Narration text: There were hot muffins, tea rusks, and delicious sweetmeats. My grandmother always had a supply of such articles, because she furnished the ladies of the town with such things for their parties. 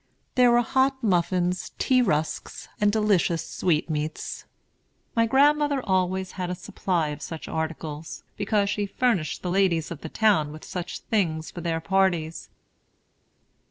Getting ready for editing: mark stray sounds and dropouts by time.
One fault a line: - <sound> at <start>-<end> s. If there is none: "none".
none